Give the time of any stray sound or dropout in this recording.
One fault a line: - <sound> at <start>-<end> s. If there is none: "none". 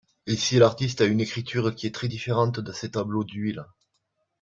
none